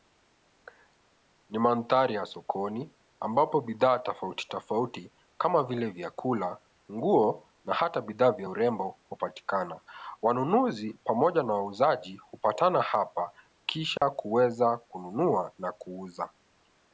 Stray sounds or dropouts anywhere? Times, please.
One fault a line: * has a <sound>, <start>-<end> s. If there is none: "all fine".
* has a dropout, 14.0-14.0 s